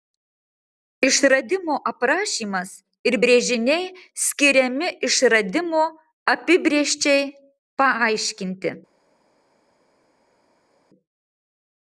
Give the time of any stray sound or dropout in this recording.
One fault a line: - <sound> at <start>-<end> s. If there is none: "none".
none